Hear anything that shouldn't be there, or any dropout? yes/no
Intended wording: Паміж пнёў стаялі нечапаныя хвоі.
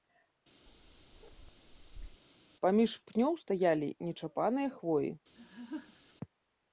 yes